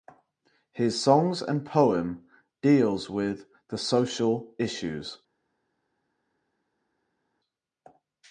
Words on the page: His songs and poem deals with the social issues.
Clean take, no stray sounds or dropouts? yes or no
yes